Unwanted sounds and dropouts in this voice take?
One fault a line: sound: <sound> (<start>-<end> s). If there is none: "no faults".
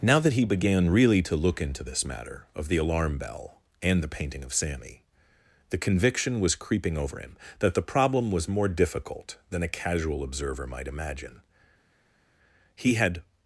no faults